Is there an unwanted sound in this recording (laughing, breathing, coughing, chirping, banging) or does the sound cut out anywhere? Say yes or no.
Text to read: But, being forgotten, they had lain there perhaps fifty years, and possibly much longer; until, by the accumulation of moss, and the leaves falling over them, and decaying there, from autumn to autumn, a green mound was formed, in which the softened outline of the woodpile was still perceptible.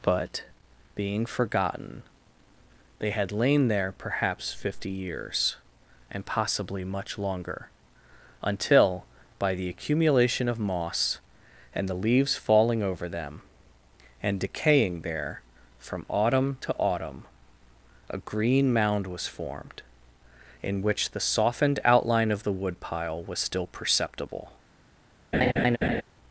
yes